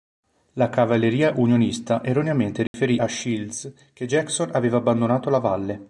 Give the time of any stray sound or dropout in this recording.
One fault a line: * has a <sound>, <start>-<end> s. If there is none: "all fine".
* has a dropout, 2.7-2.7 s